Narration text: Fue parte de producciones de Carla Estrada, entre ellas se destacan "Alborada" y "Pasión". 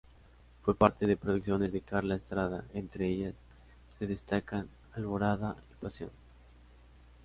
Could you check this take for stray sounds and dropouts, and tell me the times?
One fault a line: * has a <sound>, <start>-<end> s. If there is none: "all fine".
all fine